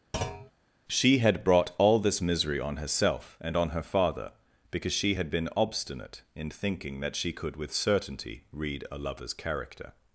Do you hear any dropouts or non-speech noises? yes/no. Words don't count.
yes